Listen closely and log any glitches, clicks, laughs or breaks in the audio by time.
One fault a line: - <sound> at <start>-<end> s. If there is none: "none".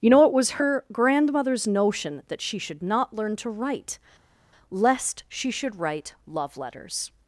none